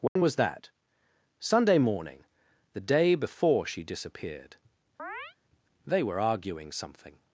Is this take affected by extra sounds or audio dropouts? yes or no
yes